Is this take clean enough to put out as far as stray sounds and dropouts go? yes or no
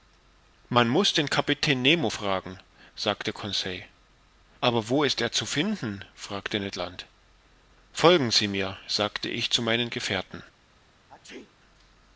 no